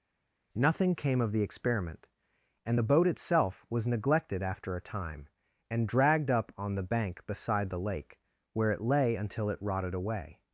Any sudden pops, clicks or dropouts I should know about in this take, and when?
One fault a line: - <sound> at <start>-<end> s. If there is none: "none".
none